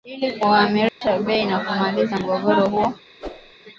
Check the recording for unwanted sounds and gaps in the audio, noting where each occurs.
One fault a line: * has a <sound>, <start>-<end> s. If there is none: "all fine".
* has a dropout, 0.9-1.0 s
* has a whoosh, 3.2-3.5 s